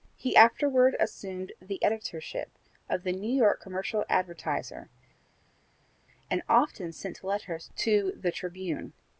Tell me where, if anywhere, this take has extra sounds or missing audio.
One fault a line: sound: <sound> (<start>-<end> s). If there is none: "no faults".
no faults